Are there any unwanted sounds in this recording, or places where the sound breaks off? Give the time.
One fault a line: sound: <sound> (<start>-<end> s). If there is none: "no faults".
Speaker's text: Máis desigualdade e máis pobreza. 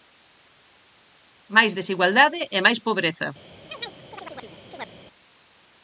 sound: chirp (3.7-4.9 s)